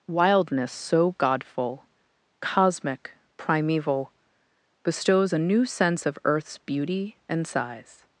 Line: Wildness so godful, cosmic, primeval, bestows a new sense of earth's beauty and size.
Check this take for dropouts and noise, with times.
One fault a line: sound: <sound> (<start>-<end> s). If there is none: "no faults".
no faults